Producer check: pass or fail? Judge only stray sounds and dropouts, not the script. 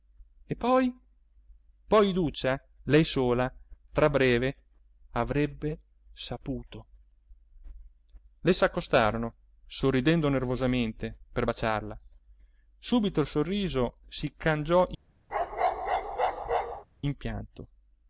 fail